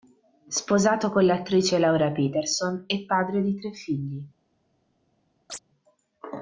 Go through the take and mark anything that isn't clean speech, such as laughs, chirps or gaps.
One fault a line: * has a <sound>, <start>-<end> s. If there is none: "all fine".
* has a chirp, 5.5-5.6 s